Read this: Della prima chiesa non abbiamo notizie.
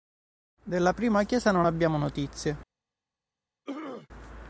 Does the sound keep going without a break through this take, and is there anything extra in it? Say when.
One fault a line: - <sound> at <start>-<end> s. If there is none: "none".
- throat clearing at 3.7-4.1 s